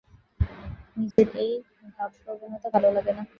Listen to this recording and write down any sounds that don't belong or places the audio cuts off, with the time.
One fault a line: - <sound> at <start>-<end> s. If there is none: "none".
- dropout at 1.1-1.2 s